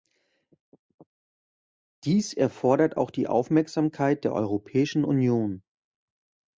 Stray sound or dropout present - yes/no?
no